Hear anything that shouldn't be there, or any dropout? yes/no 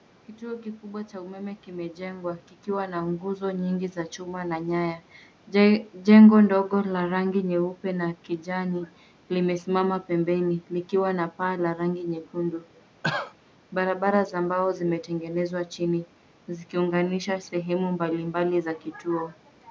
yes